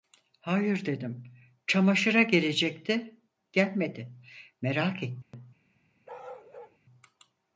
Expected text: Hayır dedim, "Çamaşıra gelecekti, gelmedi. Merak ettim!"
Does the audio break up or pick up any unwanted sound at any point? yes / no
yes